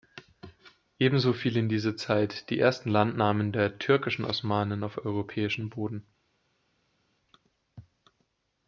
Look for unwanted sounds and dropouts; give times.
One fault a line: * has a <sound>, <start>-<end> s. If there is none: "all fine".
all fine